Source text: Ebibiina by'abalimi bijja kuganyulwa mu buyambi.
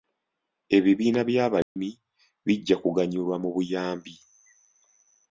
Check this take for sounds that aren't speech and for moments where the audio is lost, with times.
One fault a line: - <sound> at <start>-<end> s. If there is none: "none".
- dropout at 1.6-1.8 s